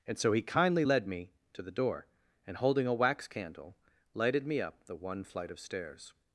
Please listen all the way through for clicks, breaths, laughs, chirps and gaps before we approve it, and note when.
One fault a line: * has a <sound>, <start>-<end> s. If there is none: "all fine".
all fine